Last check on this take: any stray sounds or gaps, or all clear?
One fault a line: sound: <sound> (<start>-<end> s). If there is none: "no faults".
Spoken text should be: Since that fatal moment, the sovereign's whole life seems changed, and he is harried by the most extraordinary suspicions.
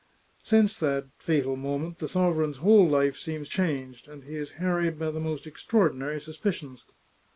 no faults